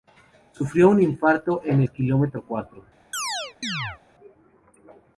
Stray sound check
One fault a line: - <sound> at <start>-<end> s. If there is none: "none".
- chirp at 3.1-4.0 s